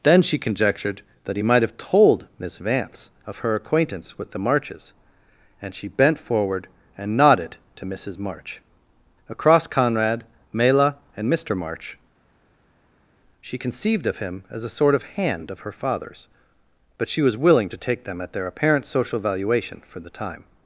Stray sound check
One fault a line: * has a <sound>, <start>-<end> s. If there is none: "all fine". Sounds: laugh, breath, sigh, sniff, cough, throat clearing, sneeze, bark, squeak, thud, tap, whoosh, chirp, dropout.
all fine